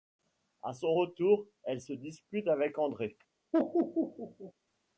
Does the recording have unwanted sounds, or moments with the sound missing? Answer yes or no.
yes